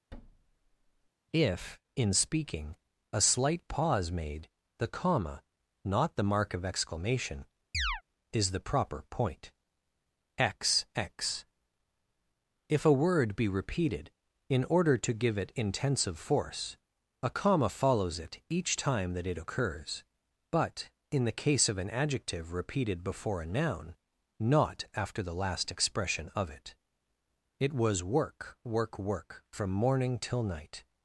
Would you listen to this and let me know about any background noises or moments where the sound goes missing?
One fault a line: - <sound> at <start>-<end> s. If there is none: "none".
- thud at 0.1-1.1 s
- chirp at 7.7-8.0 s